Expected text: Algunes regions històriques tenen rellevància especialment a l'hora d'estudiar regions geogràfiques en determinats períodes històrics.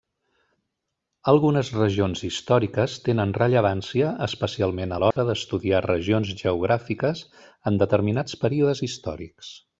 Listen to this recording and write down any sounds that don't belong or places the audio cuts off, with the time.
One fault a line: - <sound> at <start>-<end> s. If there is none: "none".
- dropout at 5.1-5.2 s